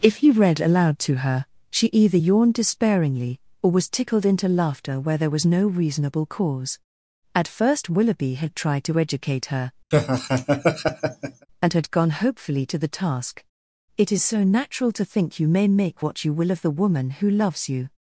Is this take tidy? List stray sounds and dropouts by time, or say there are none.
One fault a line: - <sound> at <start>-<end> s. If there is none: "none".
- laugh at 9.9-11.5 s